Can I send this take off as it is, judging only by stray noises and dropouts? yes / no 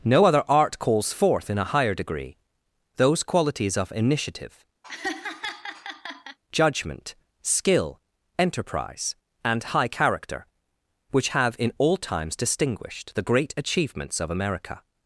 no